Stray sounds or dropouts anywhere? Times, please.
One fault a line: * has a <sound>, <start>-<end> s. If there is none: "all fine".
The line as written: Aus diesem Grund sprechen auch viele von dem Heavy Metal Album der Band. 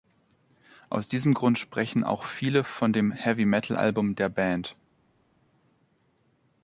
all fine